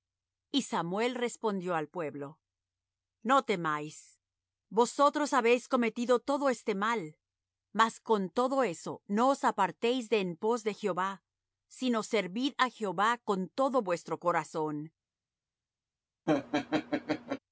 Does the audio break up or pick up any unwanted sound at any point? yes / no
yes